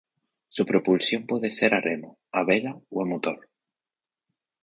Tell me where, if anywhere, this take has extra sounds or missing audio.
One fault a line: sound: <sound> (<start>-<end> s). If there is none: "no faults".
no faults